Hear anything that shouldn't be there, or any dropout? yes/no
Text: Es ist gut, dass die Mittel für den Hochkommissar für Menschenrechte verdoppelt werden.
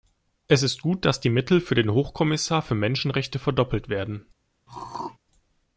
yes